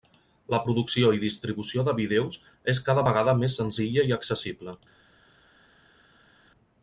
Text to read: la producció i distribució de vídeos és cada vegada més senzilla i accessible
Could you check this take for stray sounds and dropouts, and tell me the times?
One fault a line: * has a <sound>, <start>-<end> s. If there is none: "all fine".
all fine